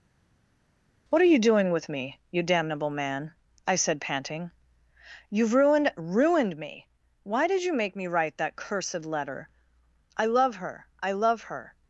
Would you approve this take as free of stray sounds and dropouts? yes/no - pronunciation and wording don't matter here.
yes